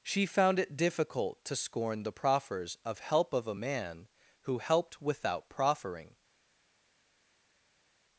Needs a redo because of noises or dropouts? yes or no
no